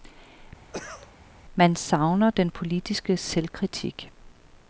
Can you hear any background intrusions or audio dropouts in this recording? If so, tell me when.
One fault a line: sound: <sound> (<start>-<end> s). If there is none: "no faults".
sound: cough (0.7-1.1 s)